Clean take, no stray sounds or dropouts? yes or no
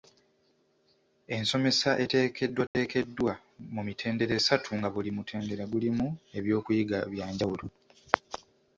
no